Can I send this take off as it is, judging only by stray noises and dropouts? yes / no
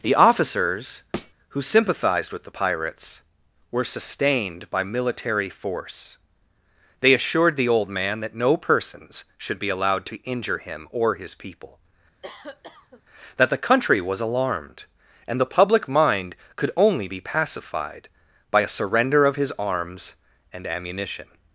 no